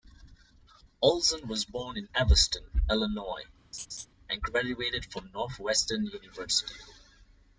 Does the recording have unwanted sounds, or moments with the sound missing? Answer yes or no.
yes